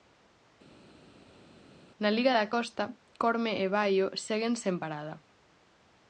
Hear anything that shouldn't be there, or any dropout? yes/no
no